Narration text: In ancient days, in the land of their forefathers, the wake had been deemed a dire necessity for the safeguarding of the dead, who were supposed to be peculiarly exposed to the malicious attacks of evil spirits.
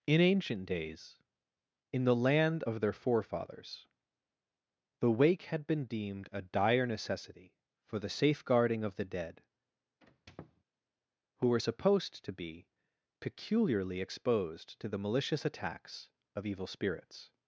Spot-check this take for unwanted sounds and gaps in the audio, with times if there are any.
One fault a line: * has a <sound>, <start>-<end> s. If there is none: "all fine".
* has a squeak, 10.0-10.6 s